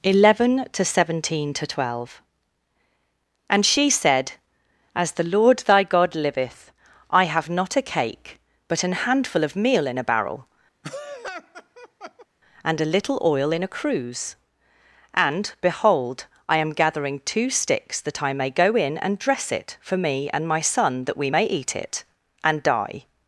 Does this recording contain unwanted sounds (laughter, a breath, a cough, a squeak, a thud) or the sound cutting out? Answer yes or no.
yes